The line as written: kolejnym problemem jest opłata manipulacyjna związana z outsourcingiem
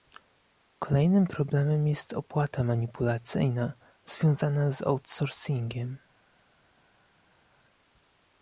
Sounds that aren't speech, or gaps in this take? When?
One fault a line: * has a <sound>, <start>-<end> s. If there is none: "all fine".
all fine